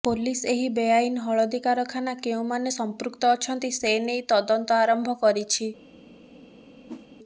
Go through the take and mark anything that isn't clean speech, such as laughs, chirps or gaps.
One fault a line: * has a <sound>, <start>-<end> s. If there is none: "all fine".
* has a whoosh, 6.9-7.1 s